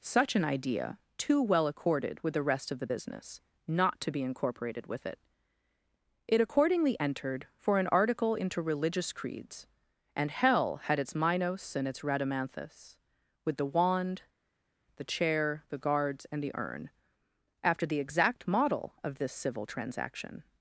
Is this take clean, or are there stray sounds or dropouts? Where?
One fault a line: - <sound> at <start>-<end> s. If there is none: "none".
none